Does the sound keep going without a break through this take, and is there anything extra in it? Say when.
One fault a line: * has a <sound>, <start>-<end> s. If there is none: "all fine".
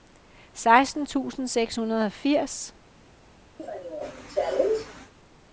* has a cough, 3.6-5.1 s